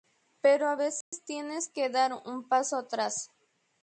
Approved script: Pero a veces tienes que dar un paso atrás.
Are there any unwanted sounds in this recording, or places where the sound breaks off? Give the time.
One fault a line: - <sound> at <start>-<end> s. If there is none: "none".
- dropout at 1.0-1.1 s